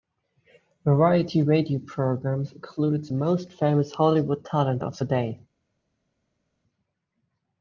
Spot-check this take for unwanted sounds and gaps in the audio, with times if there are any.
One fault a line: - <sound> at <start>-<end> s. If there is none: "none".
none